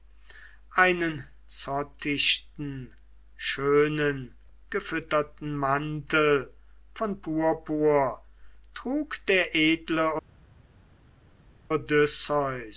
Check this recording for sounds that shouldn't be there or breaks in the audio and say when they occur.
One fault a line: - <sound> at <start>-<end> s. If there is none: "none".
none